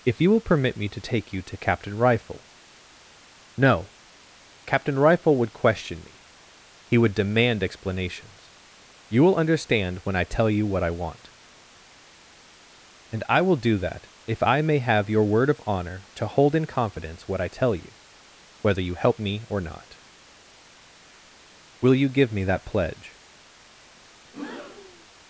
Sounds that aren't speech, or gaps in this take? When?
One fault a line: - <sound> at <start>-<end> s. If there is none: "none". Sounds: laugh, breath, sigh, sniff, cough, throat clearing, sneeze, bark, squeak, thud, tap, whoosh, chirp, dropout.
- breath at 24.2-25.1 s